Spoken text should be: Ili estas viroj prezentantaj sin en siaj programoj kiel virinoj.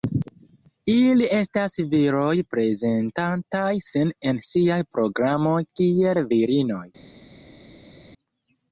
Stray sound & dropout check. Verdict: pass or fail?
pass